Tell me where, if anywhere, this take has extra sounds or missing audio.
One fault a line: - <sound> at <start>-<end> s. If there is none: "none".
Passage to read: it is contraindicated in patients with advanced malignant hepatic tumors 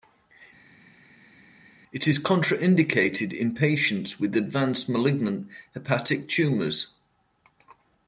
none